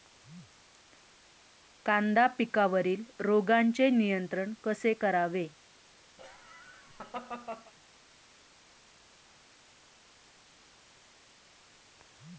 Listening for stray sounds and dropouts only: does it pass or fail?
fail